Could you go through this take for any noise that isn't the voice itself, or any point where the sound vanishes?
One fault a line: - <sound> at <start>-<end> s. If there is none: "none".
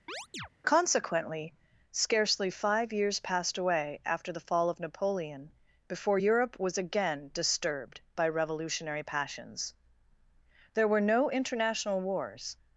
- chirp at 0.1-0.5 s